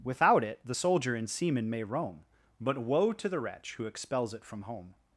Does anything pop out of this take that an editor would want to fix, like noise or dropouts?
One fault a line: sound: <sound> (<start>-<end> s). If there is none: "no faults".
no faults